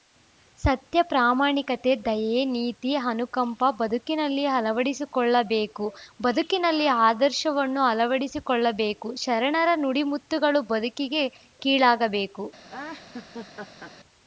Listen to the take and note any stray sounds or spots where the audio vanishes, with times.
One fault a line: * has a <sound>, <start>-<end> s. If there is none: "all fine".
* has a laugh, 12.7-13.9 s